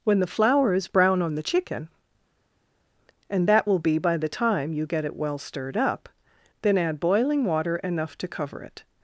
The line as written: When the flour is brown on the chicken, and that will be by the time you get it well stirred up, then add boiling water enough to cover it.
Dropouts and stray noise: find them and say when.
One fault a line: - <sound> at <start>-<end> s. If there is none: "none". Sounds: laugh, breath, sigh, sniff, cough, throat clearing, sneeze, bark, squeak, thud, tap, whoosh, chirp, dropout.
none